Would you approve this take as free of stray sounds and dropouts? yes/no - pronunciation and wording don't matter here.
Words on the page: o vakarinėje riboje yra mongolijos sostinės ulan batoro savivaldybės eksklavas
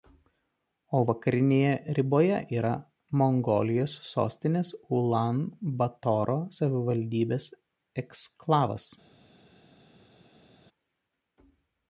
yes